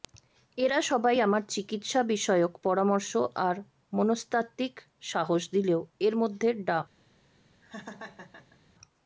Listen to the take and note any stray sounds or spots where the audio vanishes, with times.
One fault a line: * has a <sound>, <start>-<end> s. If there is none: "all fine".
* has a laugh, 7.6-8.6 s